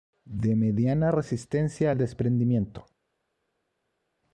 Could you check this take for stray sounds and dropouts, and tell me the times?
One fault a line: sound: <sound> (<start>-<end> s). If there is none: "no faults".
no faults